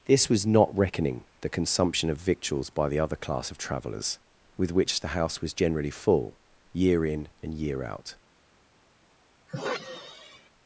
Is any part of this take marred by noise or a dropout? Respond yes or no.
yes